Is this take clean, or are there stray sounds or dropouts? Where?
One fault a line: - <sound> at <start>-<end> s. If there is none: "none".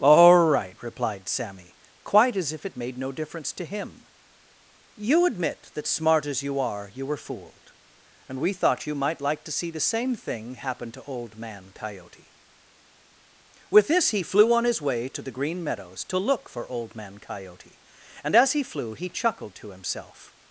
none